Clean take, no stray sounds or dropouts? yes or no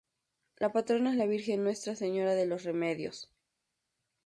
yes